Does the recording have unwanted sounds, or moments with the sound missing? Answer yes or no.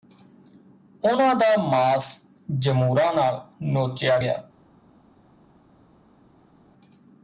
no